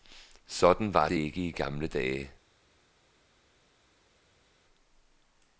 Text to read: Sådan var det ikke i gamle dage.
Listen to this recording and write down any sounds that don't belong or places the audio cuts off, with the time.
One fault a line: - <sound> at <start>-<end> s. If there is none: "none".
none